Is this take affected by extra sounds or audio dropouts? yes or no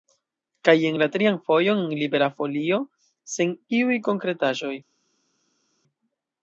no